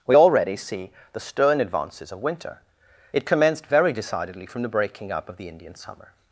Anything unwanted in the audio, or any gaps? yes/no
no